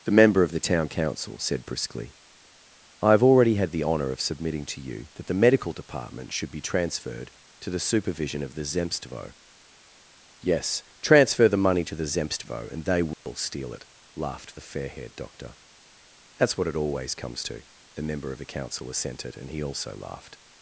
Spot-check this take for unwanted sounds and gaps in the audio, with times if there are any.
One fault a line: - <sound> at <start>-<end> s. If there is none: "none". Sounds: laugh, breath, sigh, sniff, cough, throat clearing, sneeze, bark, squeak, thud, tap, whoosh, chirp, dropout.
- dropout at 13.1-13.3 s